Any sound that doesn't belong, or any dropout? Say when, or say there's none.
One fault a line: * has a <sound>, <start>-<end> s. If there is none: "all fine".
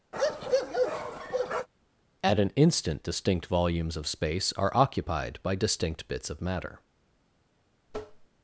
* has a bark, 0.1-1.7 s
* has a tap, 7.9-8.3 s